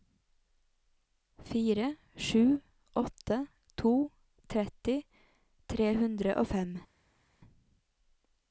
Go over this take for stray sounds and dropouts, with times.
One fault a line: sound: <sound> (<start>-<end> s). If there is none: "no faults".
no faults